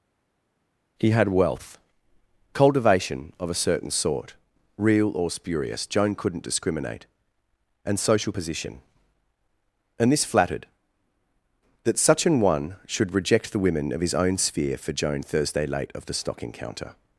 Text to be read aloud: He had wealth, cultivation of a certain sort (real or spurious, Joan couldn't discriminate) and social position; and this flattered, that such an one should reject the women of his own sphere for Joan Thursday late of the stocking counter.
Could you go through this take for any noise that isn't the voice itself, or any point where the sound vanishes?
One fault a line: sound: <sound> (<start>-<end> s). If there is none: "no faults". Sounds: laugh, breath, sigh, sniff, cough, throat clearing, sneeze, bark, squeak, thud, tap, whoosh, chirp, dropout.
no faults